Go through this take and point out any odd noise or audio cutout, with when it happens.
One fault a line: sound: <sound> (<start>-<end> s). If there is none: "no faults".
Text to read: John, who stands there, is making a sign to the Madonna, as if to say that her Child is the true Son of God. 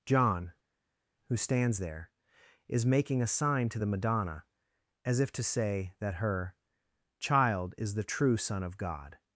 no faults